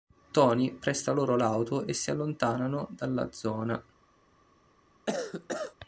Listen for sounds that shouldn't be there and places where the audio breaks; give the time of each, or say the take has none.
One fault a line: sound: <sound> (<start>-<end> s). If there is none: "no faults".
sound: cough (5.1-5.7 s)